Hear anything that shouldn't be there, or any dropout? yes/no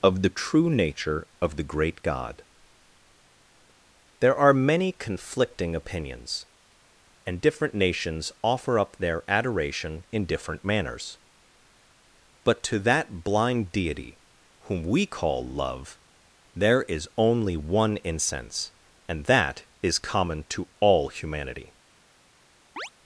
yes